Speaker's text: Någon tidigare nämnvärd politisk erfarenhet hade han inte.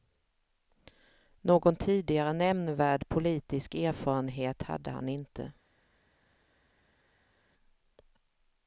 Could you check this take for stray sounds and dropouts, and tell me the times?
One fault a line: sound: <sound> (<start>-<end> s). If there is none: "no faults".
no faults